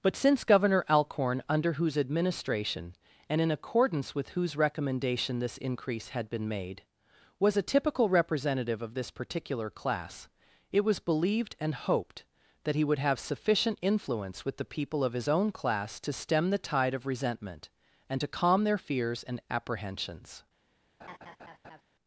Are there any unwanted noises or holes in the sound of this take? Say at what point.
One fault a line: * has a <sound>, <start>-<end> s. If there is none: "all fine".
* has a laugh, 21.0-21.8 s